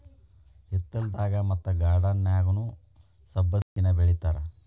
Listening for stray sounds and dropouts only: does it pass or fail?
fail